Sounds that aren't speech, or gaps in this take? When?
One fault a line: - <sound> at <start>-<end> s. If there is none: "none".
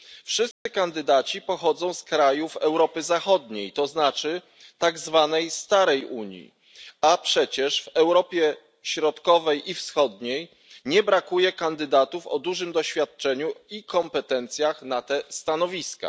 - dropout at 0.5-0.7 s